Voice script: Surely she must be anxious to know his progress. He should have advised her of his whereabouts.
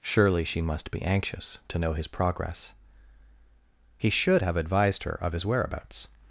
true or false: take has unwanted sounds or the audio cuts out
false